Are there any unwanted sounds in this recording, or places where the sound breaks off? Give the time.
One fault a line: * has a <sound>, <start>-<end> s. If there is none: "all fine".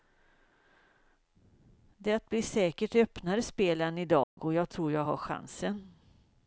* has a dropout, 4.2-4.4 s